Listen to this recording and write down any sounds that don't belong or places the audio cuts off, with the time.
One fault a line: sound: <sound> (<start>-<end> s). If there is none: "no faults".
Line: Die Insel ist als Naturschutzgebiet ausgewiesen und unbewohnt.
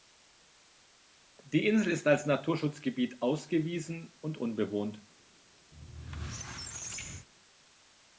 sound: squeak (5.7-7.3 s)